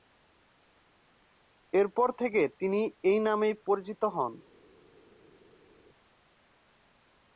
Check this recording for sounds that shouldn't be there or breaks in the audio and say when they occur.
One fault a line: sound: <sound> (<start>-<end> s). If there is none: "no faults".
no faults